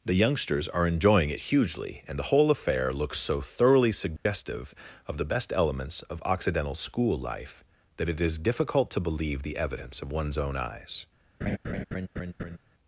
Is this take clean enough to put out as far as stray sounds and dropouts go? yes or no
no